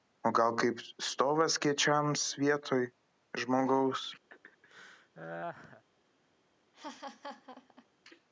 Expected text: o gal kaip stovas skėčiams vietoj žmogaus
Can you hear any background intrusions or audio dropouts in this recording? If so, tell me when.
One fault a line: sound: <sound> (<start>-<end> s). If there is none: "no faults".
sound: laugh (4.3-5.8 s)
sound: laugh (6.7-7.9 s)